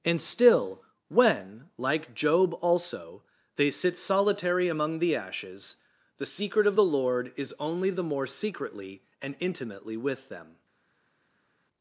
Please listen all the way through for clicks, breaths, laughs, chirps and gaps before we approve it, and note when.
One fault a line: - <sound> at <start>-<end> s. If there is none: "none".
none